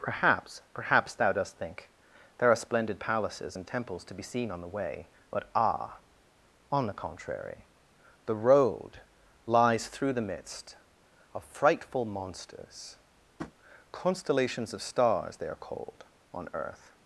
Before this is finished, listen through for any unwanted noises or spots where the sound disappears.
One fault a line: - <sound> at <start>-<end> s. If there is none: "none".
- tap at 13.4-13.5 s